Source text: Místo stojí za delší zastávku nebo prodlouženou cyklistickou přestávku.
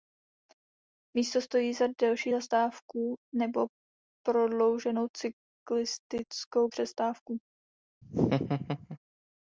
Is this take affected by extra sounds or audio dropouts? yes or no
yes